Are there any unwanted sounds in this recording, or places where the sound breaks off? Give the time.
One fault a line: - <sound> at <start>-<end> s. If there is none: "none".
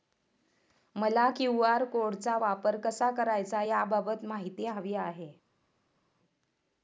none